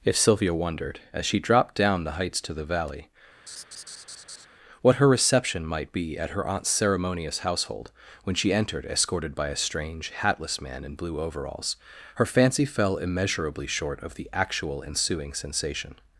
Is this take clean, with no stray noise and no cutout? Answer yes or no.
no